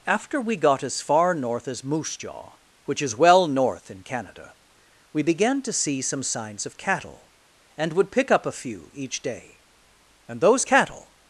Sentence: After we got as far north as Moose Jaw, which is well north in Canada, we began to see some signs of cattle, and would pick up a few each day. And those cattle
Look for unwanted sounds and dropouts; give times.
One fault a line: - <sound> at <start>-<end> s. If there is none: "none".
none